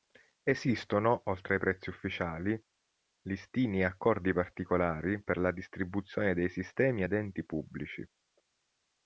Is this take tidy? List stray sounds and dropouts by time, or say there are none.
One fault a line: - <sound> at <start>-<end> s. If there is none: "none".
none